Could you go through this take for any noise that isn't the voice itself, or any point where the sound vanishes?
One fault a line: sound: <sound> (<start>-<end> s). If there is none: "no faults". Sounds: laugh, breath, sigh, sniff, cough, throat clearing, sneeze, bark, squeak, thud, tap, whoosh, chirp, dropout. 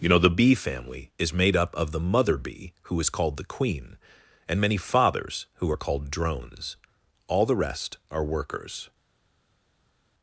no faults